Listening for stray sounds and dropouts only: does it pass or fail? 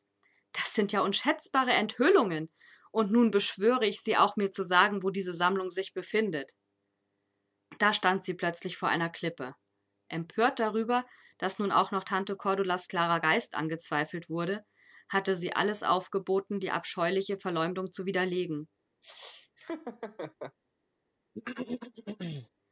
fail